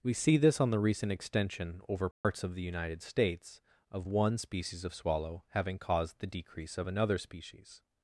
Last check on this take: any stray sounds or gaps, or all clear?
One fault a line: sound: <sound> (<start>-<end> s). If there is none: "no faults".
sound: dropout (2.1-2.2 s)